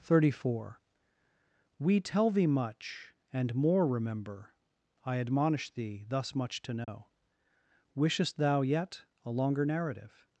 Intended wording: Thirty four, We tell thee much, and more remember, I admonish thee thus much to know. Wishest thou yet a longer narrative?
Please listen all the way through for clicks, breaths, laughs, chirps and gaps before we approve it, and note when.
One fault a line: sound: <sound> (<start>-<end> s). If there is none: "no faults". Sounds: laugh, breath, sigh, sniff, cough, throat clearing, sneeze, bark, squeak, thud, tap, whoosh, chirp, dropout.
sound: dropout (6.8-6.9 s)